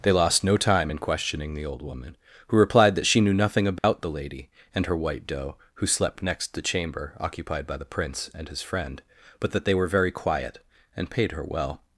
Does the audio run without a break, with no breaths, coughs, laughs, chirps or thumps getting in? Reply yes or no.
no